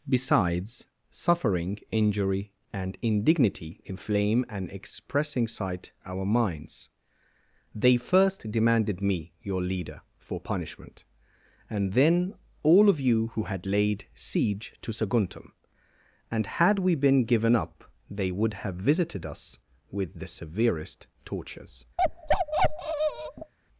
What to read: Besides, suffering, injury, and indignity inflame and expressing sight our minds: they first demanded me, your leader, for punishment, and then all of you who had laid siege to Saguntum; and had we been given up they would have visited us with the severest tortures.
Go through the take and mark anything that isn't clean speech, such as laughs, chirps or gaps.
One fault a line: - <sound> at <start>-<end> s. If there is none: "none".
- bark at 22.0-23.5 s